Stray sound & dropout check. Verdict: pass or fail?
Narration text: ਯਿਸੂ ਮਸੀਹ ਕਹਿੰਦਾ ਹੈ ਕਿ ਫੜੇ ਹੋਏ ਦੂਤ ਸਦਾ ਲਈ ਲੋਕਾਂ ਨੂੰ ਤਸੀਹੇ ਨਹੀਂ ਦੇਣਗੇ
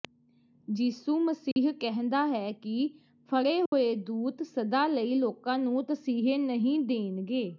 fail